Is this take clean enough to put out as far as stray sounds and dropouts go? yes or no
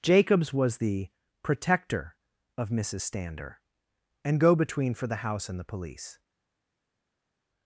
yes